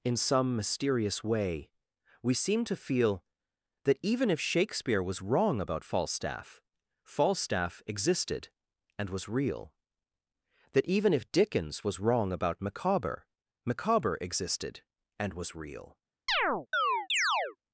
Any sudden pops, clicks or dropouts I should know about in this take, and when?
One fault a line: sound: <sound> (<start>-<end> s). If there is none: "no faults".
sound: chirp (16.3-17.6 s)